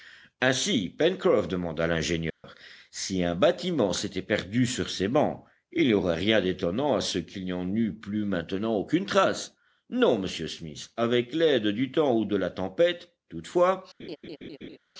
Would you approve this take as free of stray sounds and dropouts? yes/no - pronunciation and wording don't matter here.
no